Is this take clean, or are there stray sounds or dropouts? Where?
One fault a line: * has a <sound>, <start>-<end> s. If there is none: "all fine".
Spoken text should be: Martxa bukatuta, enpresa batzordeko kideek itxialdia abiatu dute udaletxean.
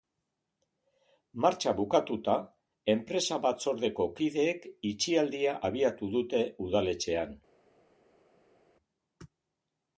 all fine